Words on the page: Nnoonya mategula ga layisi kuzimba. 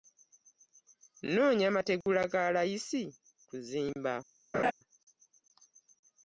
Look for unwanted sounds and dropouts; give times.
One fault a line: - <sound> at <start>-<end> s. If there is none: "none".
- dropout at 2.0-2.1 s
- laugh at 4.5-4.7 s